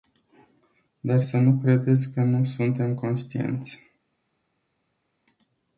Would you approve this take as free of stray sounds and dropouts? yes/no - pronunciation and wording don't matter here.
yes